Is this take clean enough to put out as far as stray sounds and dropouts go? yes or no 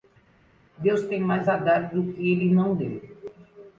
yes